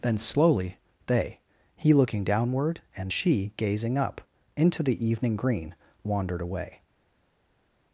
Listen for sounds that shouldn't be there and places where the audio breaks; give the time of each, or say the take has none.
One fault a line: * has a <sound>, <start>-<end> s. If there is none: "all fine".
all fine